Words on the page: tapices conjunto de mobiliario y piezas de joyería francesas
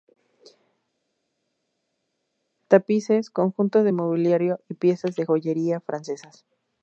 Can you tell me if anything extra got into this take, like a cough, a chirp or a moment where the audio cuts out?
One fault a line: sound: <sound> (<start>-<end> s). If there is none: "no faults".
no faults